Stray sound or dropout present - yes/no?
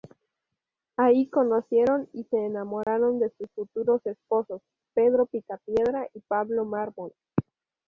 yes